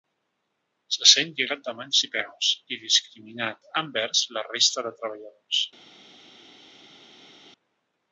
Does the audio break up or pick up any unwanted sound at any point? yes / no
no